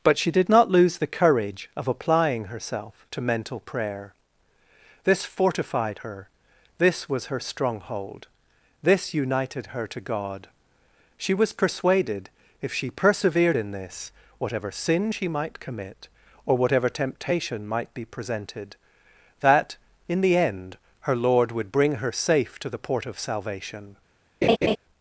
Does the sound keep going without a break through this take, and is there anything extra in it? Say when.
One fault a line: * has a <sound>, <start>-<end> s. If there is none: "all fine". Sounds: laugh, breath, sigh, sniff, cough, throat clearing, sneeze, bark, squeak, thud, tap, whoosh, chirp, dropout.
* has a laugh, 24.4-24.8 s